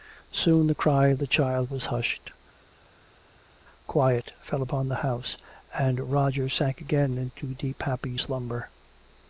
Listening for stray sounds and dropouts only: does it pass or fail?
pass